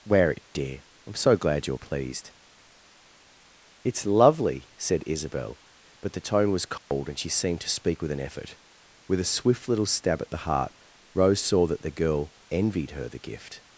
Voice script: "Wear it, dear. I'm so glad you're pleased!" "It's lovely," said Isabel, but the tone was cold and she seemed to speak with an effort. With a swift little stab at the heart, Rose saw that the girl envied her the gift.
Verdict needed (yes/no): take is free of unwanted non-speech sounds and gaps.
no